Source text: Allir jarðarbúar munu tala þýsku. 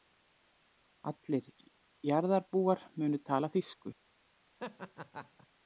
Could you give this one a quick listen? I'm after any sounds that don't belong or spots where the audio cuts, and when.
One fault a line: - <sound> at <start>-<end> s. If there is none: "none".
- laugh at 4.6-5.5 s